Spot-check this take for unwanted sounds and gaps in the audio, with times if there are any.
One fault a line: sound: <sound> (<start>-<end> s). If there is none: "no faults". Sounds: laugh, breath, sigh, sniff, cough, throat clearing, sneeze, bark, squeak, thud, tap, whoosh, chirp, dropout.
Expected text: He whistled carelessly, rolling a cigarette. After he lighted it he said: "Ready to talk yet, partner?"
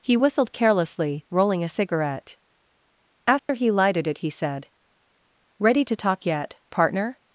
sound: dropout (3.4-3.5 s)